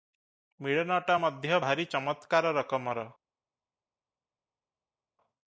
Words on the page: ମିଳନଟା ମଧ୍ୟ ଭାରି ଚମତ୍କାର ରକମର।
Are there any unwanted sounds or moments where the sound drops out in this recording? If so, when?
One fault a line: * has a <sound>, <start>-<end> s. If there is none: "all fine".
all fine